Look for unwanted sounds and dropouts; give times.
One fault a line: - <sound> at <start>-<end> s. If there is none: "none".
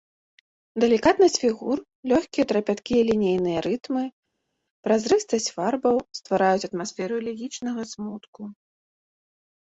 none